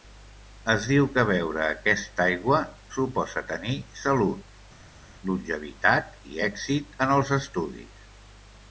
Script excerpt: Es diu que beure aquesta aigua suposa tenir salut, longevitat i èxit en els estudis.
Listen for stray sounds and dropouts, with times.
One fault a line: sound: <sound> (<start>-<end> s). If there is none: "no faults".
no faults